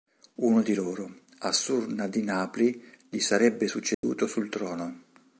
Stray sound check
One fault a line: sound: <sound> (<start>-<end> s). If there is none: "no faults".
sound: dropout (3.9-4.0 s)